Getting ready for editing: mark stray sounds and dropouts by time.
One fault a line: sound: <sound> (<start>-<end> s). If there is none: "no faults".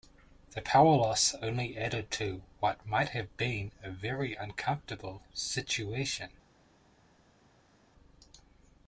no faults